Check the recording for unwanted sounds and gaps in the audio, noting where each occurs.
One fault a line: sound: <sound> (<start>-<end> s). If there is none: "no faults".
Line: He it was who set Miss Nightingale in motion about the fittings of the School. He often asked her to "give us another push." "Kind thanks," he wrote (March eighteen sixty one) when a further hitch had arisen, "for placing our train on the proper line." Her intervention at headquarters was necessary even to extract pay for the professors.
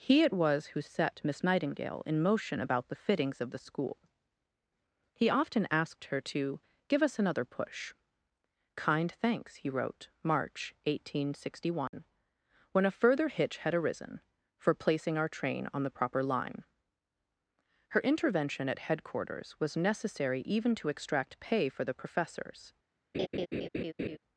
sound: dropout (11.9-11.9 s)
sound: laugh (23.1-24.2 s)